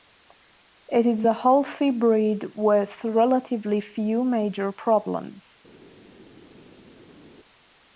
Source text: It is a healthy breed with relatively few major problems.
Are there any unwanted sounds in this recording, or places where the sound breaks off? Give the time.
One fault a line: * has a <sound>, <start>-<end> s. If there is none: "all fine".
all fine